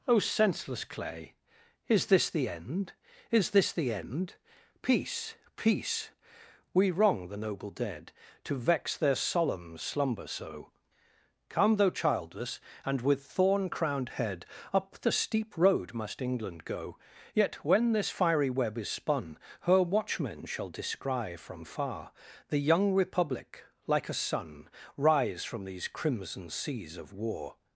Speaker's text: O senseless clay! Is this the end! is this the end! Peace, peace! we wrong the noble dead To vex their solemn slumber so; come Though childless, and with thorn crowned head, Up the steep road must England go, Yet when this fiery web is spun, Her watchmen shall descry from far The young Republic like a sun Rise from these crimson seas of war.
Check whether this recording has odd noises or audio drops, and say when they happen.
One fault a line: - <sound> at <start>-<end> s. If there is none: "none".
none